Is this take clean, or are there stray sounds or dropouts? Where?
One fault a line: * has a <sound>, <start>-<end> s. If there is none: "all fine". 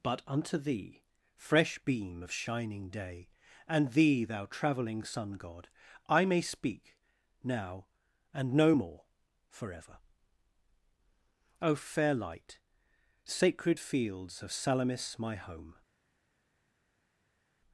all fine